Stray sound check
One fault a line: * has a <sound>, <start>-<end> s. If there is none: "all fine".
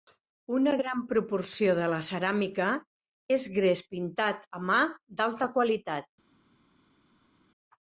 all fine